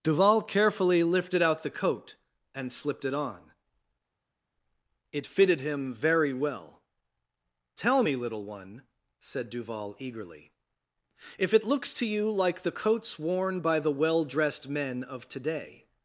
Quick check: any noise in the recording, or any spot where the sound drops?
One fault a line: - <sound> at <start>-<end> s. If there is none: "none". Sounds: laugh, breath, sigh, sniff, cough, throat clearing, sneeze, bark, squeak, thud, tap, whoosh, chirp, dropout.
none